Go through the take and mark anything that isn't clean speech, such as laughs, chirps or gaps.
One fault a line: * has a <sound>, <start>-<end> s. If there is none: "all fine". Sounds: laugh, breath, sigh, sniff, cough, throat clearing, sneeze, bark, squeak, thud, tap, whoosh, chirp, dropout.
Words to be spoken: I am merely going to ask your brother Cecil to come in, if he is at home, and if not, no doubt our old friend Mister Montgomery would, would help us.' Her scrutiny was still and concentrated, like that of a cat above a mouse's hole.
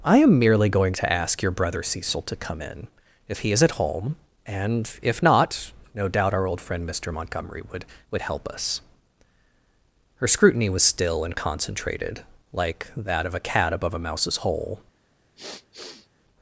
* has a sniff, 15.4-16.1 s